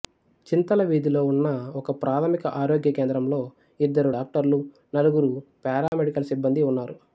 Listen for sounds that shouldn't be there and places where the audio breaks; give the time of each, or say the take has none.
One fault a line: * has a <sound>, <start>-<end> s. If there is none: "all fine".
* has a dropout, 5.9-5.9 s